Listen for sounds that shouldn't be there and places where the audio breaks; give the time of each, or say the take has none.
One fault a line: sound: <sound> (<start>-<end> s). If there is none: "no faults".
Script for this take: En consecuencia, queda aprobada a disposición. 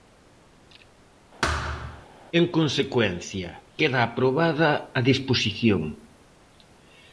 sound: thud (1.4-2.1 s)